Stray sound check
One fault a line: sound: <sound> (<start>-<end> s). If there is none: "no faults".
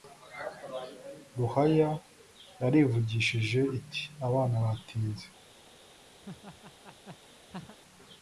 sound: laugh (6.2-7.8 s)